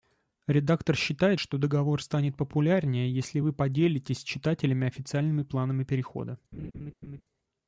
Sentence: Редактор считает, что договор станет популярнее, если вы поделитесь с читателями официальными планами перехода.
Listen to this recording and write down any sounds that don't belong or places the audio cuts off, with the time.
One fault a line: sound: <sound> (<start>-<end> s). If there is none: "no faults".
sound: laugh (6.5-7.2 s)